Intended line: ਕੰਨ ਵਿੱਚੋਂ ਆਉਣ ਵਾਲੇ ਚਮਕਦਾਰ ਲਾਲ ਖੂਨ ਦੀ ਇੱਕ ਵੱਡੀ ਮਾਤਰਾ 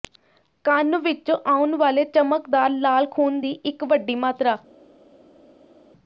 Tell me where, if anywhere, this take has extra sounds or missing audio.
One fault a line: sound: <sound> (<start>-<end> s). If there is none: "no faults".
no faults